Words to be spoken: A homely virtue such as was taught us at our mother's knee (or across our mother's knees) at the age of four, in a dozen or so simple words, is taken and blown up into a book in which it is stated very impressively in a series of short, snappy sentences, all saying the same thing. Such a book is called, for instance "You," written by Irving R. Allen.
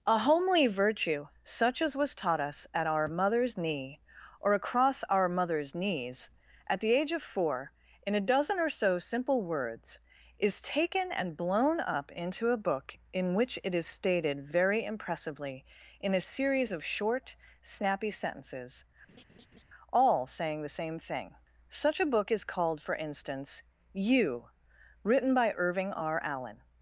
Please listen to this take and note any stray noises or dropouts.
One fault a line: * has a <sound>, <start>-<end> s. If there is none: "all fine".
* has a laugh, 19.1-19.6 s